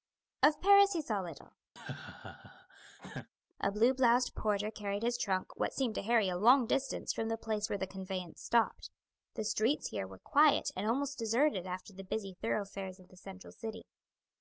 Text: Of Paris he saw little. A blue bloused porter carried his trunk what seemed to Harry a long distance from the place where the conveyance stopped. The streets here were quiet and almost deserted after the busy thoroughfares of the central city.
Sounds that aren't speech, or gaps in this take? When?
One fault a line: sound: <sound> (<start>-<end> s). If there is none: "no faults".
sound: laugh (1.8-3.3 s)